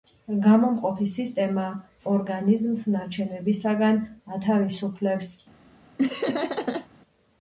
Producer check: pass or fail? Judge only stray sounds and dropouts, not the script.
fail